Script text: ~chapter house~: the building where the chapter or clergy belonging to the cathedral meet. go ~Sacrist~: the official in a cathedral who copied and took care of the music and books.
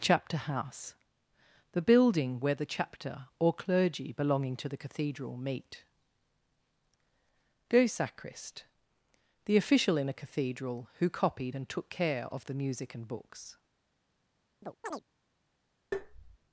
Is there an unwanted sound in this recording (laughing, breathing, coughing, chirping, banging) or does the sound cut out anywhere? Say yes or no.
yes